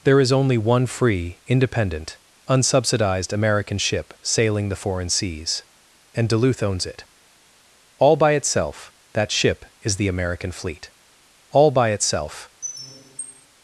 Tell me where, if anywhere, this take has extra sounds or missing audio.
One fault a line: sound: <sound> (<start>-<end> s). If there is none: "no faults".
sound: squeak (12.6-13.5 s)